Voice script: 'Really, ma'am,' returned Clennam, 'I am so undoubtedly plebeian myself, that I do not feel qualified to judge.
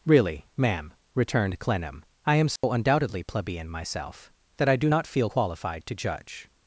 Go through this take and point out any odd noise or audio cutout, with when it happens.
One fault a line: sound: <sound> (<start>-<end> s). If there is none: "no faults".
sound: dropout (2.6-2.6 s)